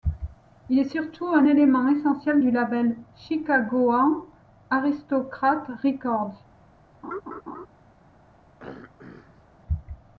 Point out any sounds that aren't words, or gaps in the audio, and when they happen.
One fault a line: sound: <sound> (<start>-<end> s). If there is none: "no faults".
sound: laugh (7.0-7.7 s)
sound: throat clearing (8.6-9.5 s)